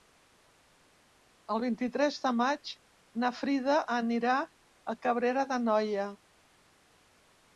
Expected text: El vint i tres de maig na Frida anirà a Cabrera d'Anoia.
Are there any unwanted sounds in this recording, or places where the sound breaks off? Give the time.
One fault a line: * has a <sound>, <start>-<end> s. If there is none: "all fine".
all fine